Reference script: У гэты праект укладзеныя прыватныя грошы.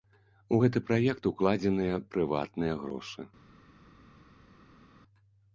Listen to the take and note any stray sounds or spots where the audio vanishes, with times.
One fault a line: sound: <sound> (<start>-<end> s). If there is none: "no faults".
no faults